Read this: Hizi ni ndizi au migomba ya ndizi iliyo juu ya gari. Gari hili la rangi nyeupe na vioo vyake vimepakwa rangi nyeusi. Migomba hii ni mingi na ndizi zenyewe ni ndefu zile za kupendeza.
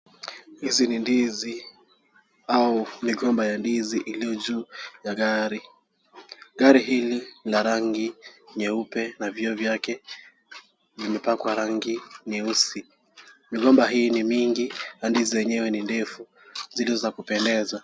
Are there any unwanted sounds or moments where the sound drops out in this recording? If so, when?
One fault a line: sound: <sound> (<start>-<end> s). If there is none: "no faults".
no faults